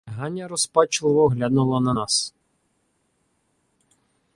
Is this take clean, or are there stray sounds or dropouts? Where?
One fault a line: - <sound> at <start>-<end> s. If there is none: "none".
none